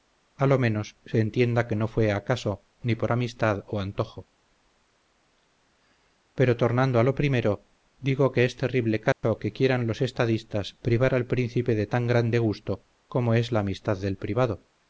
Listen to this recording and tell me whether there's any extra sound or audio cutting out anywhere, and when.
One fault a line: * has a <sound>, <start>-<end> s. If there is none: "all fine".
* has a dropout, 9.1-9.2 s